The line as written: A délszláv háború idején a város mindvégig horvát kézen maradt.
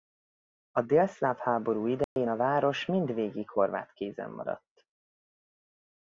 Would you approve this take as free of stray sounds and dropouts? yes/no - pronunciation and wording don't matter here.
no